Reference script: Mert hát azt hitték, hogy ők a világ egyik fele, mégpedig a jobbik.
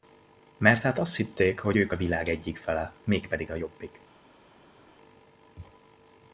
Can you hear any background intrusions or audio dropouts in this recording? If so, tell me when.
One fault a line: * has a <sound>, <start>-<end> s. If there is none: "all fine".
all fine